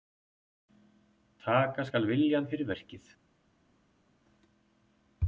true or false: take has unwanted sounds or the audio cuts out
false